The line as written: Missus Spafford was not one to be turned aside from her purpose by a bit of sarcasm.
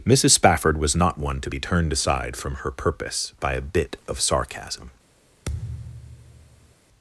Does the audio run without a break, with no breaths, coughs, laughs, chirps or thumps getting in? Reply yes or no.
no